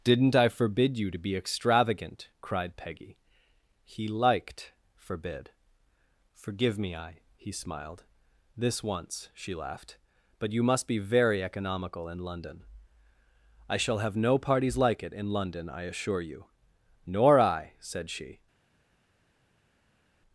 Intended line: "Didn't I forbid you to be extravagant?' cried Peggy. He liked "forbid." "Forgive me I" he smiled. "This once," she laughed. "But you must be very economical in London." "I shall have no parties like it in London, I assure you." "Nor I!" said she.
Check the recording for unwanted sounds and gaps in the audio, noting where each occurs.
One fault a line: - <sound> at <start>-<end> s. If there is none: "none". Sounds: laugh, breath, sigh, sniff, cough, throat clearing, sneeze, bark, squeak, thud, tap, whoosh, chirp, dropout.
none